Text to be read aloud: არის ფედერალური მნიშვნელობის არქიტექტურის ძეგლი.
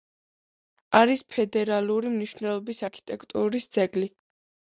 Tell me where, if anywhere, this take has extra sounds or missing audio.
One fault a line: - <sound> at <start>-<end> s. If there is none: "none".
none